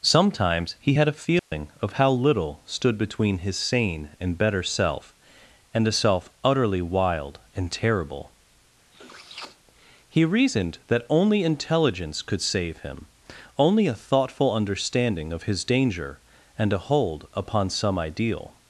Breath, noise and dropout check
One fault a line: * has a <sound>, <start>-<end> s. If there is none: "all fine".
* has a dropout, 1.4-1.5 s
* has a sniff, 8.9-9.6 s